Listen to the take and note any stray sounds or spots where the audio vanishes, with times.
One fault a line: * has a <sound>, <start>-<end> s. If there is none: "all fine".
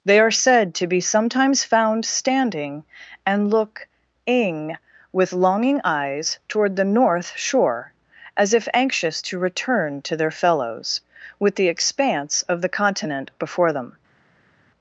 all fine